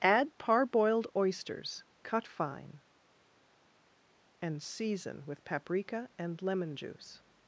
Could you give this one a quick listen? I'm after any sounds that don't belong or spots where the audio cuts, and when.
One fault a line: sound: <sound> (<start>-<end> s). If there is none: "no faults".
no faults